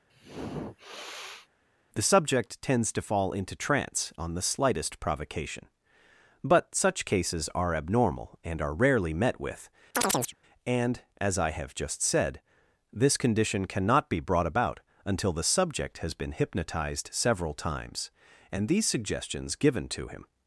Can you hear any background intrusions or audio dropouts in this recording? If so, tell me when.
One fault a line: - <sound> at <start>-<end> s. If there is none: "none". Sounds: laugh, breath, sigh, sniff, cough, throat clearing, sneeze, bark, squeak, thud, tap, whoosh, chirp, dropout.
- sniff at 0.1-1.5 s
- chirp at 9.9-10.4 s